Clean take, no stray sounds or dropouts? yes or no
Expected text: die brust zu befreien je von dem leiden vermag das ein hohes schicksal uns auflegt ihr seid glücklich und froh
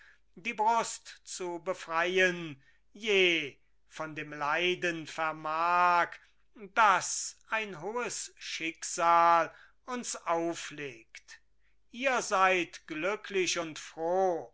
yes